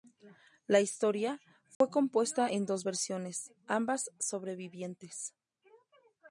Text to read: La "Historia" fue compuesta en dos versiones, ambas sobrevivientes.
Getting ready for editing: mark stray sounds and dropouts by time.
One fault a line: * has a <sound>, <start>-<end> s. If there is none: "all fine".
* has a dropout, 1.7-1.8 s